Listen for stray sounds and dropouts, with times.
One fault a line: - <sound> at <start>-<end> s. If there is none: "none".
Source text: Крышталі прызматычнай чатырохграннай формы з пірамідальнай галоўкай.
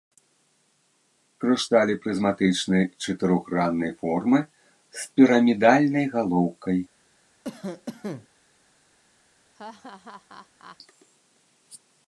- cough at 7.4-8.3 s
- laugh at 9.5-10.8 s